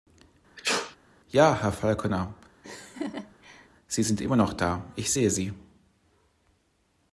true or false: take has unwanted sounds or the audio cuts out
true